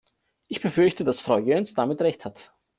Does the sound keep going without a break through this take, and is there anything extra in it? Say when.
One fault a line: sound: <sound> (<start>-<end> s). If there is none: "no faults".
no faults